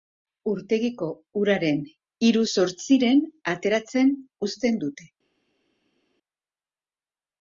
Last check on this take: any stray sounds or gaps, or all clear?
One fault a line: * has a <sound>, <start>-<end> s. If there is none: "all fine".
all fine